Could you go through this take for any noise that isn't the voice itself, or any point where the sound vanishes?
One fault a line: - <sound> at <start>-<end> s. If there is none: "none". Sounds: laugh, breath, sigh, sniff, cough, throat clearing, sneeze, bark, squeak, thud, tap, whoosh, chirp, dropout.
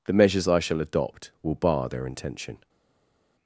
none